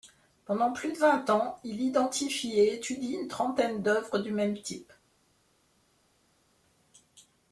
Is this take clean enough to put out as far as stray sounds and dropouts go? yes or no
yes